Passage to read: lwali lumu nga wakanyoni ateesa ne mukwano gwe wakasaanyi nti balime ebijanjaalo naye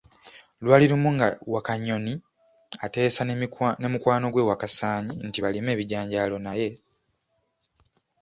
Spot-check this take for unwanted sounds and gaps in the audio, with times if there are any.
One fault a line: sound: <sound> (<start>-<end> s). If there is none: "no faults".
no faults